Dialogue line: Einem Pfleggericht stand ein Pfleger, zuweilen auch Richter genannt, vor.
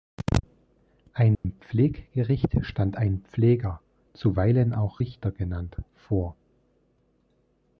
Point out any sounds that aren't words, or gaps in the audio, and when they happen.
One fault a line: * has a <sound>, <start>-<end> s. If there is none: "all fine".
* has a dropout, 1.3-1.4 s